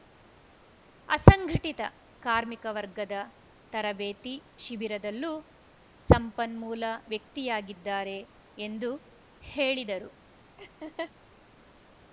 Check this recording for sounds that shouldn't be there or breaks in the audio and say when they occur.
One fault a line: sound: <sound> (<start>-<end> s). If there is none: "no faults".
sound: laugh (10.6-11.1 s)